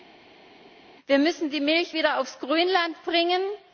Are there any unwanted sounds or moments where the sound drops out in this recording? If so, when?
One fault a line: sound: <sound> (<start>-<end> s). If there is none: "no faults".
no faults